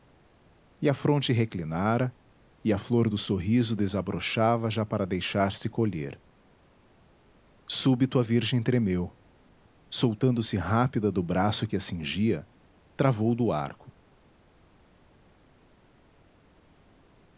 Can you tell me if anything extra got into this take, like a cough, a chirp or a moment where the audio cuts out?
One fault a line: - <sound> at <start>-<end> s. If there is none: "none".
none